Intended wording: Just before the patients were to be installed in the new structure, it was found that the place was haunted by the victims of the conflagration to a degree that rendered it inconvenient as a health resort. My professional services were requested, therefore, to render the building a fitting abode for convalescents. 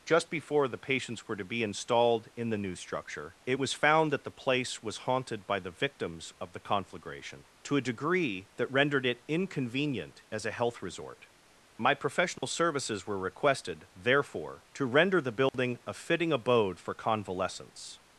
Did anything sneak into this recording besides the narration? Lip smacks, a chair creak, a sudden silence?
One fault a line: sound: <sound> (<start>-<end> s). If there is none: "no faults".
sound: dropout (12.4-12.4 s)
sound: dropout (15.5-15.5 s)